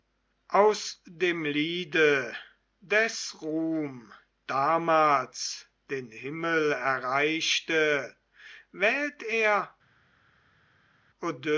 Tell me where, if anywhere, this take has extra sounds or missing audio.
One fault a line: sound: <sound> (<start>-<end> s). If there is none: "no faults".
no faults